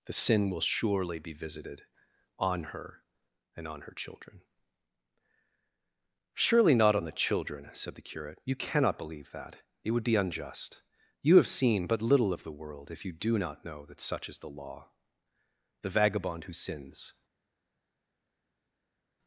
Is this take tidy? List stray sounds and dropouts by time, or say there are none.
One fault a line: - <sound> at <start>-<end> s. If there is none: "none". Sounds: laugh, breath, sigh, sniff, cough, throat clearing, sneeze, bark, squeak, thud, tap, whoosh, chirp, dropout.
none